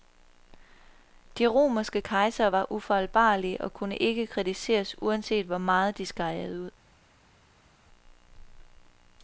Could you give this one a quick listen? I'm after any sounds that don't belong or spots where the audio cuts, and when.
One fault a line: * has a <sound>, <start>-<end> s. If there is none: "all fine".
all fine